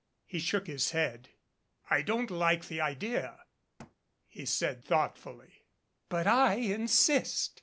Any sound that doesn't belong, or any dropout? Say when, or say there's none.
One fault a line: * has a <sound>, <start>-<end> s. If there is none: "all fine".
* has a thud, 3.8-4.0 s